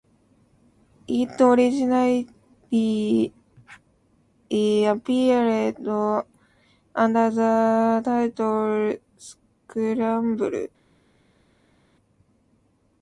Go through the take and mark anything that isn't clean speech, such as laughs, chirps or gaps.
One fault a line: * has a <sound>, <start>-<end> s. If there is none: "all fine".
all fine